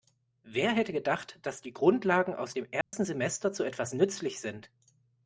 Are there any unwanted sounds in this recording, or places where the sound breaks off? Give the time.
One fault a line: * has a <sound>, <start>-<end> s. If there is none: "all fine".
* has a dropout, 2.8-2.9 s